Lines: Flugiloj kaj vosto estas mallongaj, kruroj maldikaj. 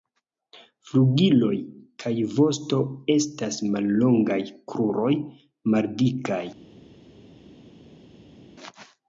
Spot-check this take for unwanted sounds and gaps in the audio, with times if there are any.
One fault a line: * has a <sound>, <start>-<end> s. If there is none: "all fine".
all fine